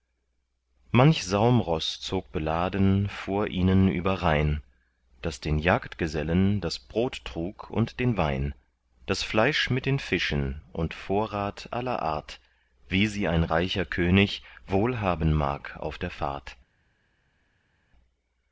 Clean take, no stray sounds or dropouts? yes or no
yes